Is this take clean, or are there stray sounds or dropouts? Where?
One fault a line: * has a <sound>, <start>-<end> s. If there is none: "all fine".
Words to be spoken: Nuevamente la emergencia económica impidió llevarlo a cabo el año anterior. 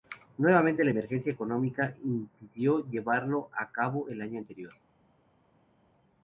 all fine